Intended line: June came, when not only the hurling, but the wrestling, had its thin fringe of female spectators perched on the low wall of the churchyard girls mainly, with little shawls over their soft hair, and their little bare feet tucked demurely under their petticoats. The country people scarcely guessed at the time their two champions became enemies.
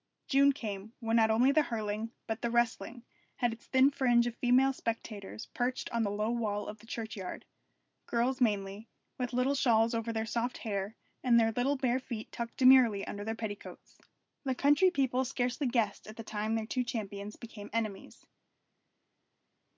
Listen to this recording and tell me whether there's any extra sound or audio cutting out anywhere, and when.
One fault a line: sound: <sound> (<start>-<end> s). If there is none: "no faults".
no faults